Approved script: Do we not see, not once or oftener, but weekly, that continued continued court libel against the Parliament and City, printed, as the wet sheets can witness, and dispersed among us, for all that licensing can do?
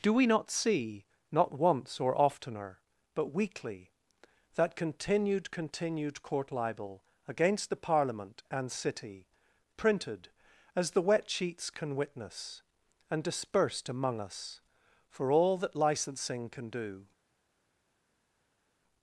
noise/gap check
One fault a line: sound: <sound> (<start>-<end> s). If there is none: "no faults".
no faults